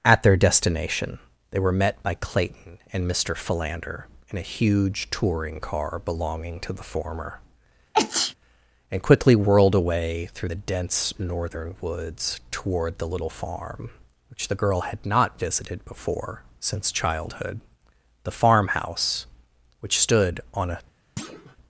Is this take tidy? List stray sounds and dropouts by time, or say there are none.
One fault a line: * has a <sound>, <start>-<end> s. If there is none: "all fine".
* has a sneeze, 7.9-8.3 s
* has a thud, 21.2-21.6 s